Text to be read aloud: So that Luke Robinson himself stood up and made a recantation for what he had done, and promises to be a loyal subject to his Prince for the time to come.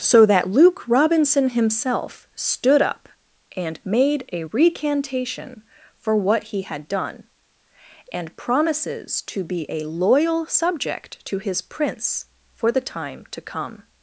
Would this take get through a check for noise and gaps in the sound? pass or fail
pass